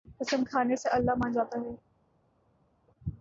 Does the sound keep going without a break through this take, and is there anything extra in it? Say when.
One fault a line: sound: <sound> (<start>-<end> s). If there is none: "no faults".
no faults